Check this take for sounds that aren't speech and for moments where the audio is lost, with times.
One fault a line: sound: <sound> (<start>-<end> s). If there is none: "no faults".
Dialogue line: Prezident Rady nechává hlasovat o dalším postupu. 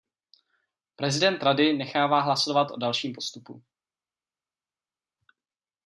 no faults